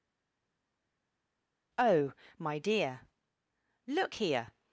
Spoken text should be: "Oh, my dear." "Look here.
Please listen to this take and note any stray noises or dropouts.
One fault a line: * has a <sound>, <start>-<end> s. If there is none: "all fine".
all fine